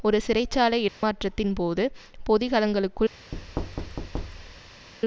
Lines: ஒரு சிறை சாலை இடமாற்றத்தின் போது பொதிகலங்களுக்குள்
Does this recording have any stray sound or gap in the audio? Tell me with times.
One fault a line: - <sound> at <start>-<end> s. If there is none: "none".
- dropout at 0.9-1.0 s
- thud at 3.3-4.9 s